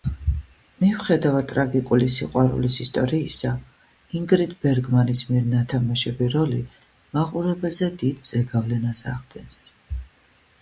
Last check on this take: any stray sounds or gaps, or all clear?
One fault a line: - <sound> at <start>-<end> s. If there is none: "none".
none